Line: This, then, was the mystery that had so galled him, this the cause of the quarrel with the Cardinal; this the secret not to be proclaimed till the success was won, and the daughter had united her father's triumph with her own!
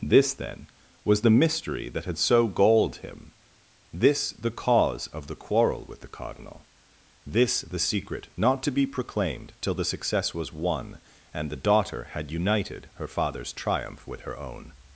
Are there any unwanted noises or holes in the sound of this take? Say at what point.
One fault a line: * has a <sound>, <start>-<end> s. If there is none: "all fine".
all fine